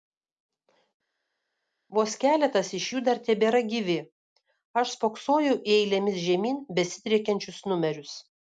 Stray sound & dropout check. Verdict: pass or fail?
pass